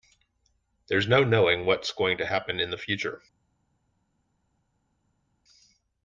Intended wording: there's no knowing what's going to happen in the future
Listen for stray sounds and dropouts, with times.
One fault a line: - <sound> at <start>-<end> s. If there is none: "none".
none